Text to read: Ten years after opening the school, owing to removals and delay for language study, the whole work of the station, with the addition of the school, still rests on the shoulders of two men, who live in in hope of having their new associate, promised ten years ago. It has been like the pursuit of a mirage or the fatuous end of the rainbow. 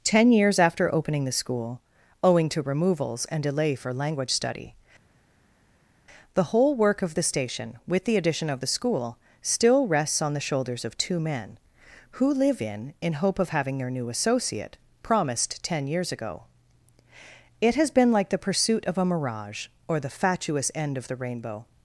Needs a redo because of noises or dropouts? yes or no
no